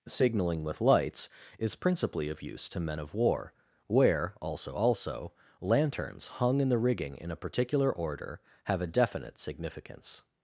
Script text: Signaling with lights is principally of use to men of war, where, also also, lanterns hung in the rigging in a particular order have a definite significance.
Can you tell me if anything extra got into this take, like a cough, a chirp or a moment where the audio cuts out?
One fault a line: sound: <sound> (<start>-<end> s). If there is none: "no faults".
no faults